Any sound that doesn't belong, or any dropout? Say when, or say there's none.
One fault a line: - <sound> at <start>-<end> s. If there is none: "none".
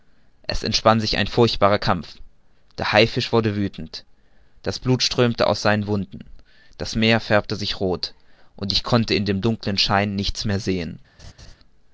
- laugh at 11.2-11.6 s